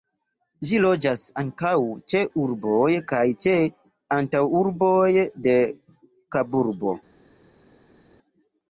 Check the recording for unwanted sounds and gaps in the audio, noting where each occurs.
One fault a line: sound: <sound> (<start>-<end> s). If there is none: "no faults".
no faults